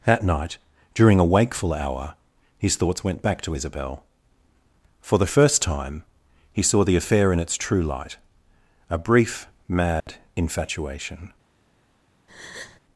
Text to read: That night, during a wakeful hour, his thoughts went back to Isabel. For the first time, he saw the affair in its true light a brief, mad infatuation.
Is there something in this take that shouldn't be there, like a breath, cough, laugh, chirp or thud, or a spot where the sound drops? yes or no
yes